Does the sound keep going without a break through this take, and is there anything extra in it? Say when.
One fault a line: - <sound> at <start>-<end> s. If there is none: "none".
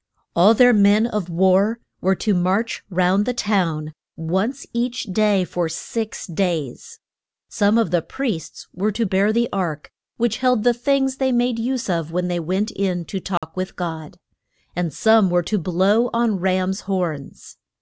- dropout at 13.4-13.4 s